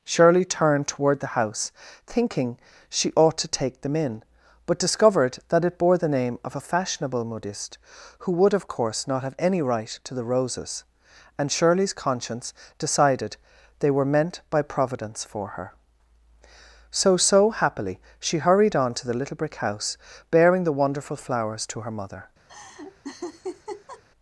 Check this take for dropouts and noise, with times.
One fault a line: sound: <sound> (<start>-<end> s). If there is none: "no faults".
sound: laugh (22.5-24.0 s)